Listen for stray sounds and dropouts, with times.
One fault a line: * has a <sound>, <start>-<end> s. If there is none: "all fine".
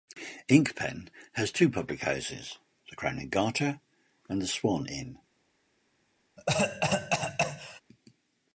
* has a cough, 6.4-7.8 s